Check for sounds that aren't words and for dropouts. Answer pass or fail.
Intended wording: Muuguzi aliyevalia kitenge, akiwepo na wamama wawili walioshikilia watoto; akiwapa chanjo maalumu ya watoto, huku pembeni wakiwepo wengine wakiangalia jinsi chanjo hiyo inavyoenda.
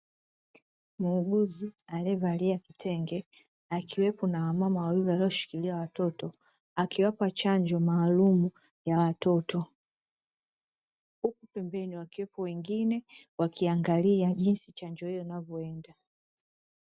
pass